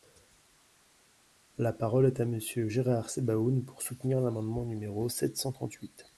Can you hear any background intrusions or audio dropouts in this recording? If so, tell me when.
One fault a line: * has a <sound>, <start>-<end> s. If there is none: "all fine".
all fine